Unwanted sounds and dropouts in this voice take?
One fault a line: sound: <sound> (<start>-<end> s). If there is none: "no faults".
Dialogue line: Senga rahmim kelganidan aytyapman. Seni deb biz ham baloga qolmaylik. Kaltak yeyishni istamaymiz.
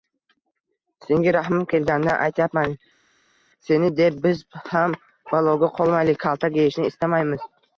no faults